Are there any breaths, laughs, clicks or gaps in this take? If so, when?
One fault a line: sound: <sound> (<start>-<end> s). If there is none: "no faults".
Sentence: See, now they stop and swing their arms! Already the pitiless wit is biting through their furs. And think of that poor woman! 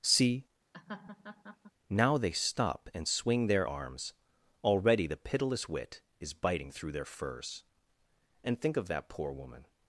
sound: laugh (0.7-1.7 s)